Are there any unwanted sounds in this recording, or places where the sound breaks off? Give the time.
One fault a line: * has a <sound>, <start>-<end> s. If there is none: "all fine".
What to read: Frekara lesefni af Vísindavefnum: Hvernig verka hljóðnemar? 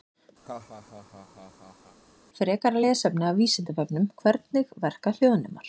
* has a laugh, 0.4-2.0 s